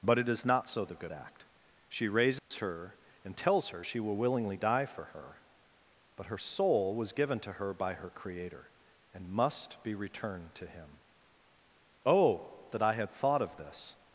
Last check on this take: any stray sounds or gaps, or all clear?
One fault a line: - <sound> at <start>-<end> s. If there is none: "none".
- dropout at 2.4-2.5 s